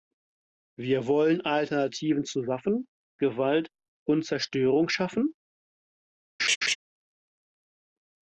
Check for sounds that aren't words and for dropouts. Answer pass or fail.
fail